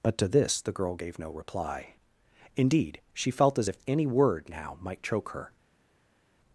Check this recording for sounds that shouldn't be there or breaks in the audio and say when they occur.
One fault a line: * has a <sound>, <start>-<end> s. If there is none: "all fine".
all fine